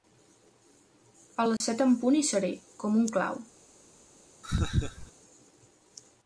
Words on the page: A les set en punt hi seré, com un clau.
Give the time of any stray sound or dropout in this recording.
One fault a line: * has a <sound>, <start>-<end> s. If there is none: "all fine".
* has a dropout, 1.6-1.6 s
* has a laugh, 4.4-5.1 s